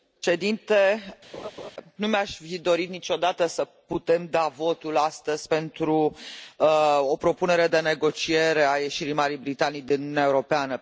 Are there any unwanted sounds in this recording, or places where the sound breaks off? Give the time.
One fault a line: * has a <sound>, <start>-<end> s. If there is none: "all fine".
* has a laugh, 1.3-1.7 s